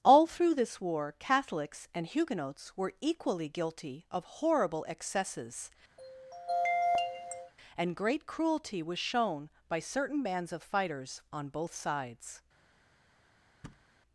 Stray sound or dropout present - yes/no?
yes